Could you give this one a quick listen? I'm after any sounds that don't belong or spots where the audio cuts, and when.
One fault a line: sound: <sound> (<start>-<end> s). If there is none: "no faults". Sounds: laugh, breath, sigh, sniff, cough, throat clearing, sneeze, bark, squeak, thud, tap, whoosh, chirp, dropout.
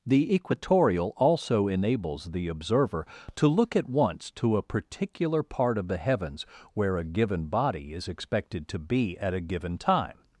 no faults